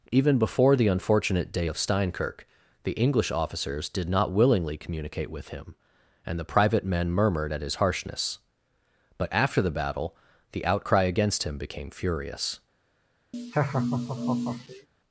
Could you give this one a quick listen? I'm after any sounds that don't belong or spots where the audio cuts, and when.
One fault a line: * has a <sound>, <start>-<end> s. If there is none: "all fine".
* has a laugh, 13.3-14.9 s